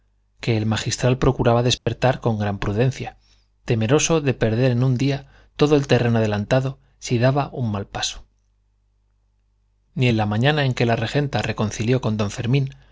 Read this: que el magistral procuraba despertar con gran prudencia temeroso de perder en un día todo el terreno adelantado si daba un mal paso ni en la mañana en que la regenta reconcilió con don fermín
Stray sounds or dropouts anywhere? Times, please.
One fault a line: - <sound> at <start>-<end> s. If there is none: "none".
- dropout at 1.8-1.9 s